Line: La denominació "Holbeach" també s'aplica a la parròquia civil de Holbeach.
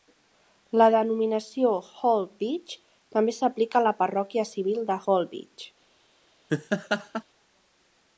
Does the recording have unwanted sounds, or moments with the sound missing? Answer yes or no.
yes